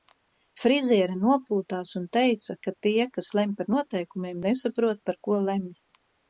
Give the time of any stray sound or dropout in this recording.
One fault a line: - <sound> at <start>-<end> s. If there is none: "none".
none